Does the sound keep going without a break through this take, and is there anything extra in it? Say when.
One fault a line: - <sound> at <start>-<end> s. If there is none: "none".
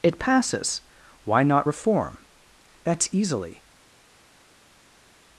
none